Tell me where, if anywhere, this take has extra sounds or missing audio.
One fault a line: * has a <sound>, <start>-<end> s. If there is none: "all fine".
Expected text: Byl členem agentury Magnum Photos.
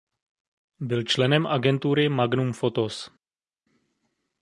all fine